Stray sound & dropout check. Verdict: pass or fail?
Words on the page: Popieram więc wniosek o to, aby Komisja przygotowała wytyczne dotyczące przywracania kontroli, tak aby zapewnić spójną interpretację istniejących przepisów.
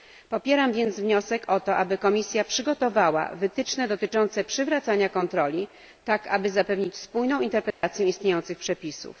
fail